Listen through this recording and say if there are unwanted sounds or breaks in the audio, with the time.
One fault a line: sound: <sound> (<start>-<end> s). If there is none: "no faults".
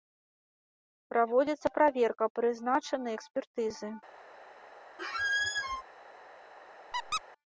sound: squeak (5.0-5.8 s)
sound: squeak (6.9-7.2 s)